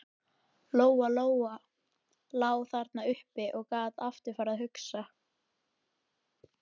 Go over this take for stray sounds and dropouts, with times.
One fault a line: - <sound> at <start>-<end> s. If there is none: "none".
none